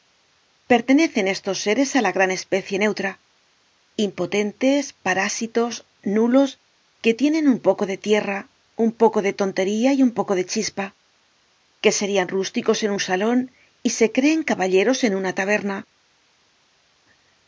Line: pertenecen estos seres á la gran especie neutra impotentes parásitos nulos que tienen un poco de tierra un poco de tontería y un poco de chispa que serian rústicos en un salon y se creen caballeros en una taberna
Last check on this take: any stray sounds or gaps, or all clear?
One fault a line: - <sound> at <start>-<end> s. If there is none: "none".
none